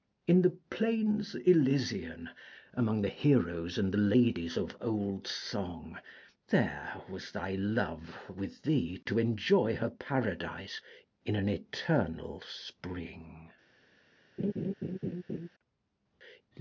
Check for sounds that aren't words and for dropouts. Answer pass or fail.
fail